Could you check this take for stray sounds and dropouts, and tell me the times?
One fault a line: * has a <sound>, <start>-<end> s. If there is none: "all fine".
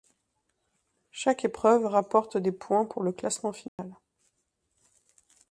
* has a dropout, 3.7-3.8 s